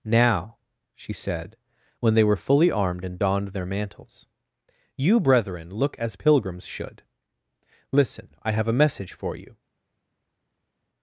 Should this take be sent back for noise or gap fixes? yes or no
no